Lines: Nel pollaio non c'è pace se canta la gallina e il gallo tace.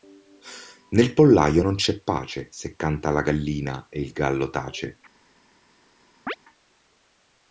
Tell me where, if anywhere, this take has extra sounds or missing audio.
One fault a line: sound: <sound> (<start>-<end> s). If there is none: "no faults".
sound: chirp (6.3-6.4 s)